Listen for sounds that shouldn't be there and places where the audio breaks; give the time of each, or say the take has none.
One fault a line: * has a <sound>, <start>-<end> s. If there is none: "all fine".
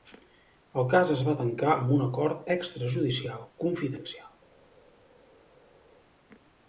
all fine